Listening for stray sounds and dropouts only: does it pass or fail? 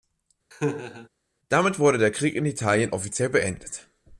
fail